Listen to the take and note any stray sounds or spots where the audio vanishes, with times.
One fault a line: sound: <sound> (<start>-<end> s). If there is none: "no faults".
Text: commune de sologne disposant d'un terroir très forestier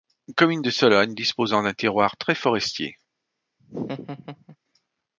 sound: laugh (3.6-4.6 s)